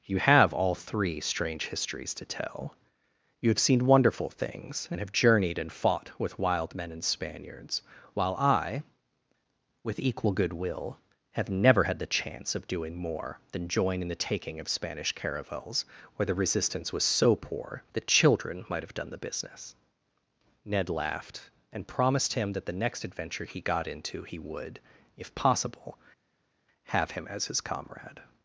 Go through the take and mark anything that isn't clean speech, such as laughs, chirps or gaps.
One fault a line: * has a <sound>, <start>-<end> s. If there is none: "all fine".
all fine